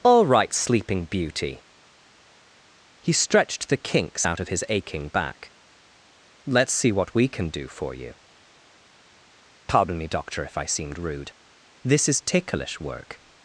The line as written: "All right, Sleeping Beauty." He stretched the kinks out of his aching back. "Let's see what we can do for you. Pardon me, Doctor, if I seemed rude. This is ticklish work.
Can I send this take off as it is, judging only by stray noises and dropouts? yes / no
yes